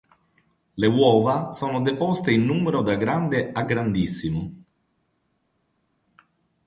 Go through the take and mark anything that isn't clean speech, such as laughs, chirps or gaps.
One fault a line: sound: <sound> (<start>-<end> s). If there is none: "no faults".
no faults